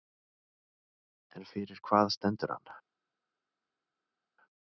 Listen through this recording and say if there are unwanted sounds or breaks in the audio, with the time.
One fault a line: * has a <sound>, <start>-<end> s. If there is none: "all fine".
all fine